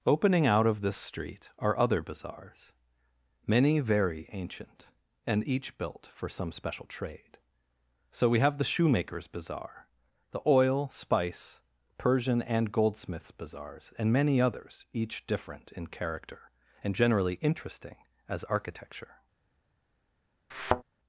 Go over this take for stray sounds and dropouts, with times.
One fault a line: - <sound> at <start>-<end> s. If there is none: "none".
- thud at 20.5-20.8 s